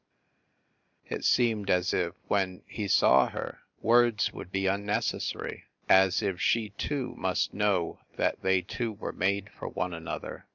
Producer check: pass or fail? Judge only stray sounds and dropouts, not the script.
pass